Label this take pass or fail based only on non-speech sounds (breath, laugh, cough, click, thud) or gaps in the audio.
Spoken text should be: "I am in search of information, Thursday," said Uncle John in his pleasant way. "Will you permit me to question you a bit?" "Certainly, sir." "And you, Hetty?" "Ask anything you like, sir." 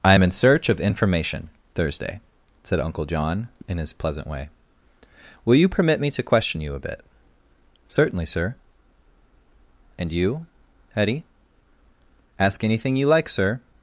pass